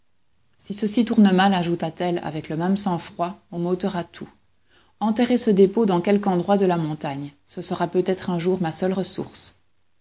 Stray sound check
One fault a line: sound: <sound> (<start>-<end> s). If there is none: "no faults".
no faults